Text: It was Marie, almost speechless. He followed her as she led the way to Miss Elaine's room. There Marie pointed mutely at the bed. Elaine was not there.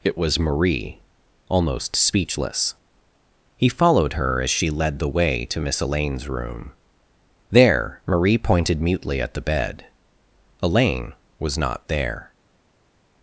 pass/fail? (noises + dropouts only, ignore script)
pass